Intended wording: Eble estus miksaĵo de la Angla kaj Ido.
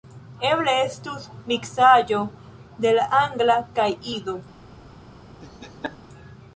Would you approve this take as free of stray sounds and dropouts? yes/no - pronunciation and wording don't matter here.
no